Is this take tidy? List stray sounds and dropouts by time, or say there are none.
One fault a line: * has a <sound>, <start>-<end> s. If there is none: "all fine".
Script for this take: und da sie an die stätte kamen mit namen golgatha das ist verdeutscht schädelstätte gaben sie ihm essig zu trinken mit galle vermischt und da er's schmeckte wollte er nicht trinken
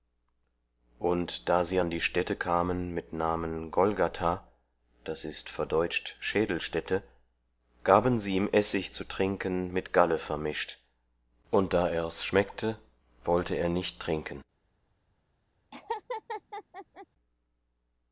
* has a laugh, 15.7-17.1 s